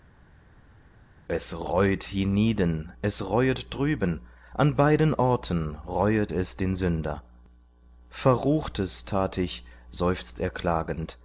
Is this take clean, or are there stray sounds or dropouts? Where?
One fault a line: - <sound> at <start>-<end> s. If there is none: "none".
none